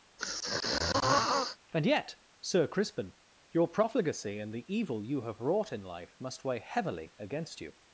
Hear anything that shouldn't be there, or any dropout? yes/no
yes